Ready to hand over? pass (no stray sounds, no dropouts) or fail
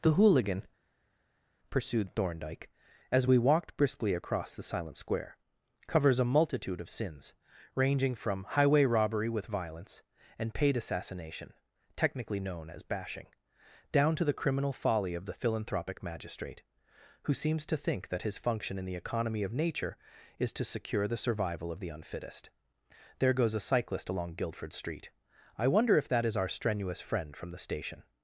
pass